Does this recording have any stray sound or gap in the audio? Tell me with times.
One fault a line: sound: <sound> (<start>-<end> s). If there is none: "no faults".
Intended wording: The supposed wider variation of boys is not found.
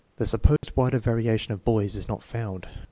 sound: dropout (0.6-0.6 s)